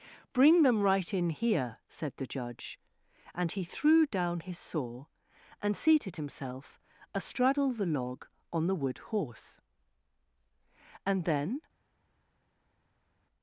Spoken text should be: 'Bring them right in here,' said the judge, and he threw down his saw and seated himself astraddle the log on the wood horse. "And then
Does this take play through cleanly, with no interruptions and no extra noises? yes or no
yes